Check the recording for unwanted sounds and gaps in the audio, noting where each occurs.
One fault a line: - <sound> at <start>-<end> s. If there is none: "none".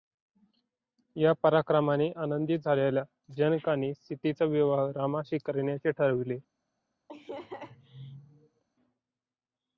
- laugh at 7.1-8.6 s